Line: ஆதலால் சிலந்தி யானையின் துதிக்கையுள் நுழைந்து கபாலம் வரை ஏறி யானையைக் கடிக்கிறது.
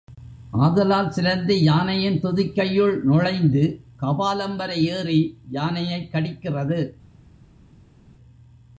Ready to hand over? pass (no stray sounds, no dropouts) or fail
pass